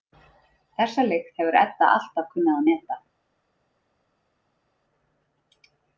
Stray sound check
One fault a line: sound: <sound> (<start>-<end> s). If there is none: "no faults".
no faults